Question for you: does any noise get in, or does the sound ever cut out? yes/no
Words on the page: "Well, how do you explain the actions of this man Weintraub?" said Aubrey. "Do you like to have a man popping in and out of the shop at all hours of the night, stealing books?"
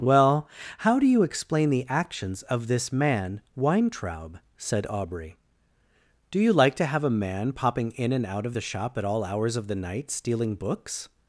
no